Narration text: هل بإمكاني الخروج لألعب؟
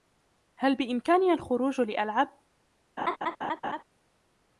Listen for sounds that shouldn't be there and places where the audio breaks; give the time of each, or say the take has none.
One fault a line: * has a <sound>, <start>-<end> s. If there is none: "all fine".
* has a laugh, 3.0-3.8 s